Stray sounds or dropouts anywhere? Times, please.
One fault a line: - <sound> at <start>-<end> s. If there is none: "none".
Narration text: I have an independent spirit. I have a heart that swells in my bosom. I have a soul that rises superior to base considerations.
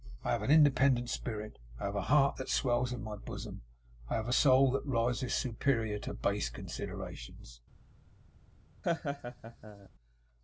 - laugh at 8.8-9.9 s